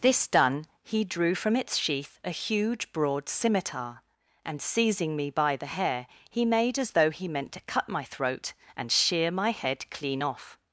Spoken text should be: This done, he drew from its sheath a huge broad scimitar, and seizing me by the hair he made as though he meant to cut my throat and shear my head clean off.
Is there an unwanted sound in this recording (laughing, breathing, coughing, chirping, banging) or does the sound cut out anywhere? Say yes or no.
no